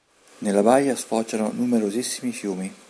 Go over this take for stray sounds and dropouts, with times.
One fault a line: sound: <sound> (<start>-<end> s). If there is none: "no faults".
no faults